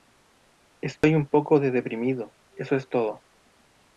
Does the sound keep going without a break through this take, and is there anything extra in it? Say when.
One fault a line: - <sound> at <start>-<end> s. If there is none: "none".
- dropout at 1.0-1.0 s